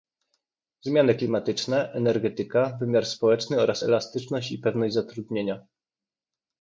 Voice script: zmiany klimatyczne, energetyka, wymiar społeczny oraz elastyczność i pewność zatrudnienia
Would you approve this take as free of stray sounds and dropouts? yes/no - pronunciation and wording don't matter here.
yes